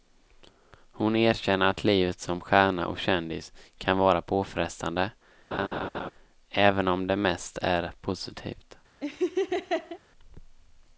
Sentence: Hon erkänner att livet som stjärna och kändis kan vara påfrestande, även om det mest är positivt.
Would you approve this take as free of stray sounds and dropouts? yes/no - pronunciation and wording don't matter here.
no